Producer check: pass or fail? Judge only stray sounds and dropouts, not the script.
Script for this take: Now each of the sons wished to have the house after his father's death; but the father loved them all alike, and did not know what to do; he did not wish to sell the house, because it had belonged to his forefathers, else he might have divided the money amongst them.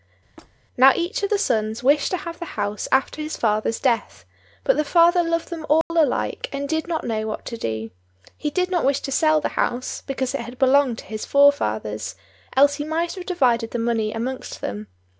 fail